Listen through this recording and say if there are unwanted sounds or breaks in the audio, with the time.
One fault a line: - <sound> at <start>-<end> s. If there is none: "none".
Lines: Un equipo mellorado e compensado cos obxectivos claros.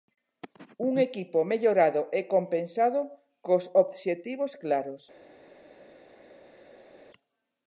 none